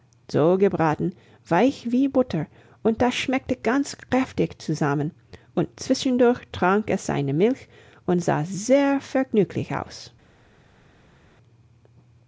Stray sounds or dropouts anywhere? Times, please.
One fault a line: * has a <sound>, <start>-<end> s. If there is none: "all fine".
all fine